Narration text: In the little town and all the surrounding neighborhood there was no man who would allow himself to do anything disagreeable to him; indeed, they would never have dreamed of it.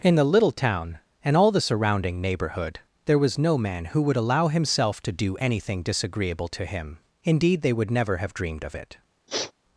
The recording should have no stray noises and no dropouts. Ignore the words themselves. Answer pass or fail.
fail